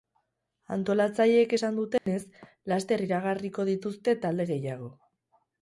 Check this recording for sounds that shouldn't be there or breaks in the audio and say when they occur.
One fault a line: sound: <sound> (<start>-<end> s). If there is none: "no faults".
sound: dropout (2.0-2.1 s)